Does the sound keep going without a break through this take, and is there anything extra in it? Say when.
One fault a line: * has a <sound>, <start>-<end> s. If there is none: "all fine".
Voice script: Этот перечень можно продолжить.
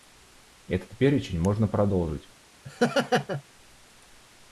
* has a laugh, 2.6-3.4 s